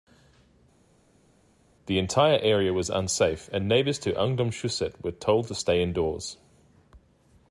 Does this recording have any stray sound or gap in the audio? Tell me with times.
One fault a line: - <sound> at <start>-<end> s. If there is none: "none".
none